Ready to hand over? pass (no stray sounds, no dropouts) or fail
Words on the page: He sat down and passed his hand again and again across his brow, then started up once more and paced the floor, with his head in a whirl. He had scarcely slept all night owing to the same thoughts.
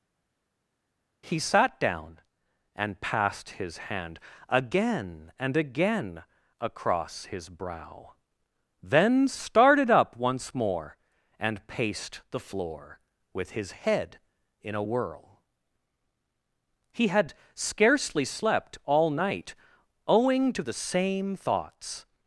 pass